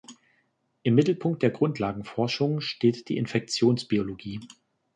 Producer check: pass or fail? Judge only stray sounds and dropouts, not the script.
pass